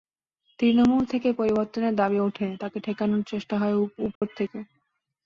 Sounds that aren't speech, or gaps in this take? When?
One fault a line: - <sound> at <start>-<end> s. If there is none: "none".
- dropout at 4.2-4.2 s